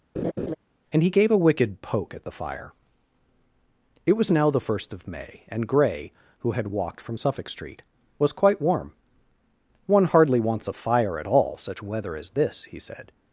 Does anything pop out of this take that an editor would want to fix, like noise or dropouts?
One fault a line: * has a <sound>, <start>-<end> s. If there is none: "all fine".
* has a laugh, 0.2-0.6 s